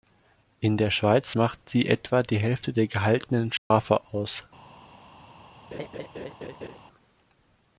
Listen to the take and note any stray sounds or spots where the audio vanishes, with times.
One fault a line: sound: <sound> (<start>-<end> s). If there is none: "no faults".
sound: dropout (3.6-3.7 s)
sound: laugh (5.7-6.8 s)